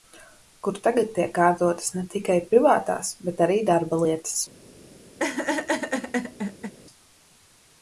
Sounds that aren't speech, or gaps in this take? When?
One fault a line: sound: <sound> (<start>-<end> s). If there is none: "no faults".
sound: laugh (5.2-6.7 s)